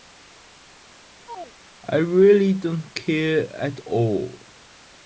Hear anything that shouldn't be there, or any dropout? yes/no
yes